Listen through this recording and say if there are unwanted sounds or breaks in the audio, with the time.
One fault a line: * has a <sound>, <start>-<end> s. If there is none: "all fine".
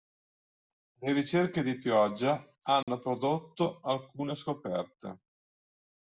* has a dropout, 2.8-2.9 s